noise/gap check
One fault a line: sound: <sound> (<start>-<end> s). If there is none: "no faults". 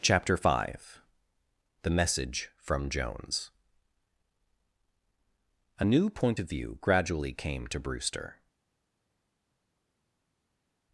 no faults